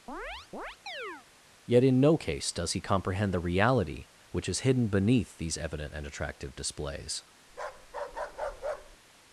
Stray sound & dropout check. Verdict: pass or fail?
fail